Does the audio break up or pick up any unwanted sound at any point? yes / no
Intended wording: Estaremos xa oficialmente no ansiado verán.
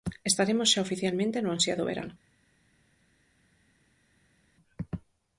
no